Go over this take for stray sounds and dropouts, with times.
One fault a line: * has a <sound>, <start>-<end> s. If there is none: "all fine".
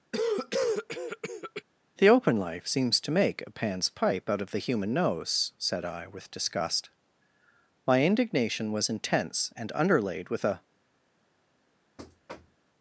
* has a cough, 0.1-1.6 s
* has a thud, 12.0-12.7 s